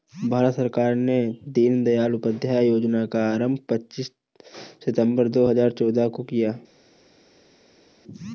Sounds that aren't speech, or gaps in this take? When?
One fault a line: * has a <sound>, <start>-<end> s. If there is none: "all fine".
all fine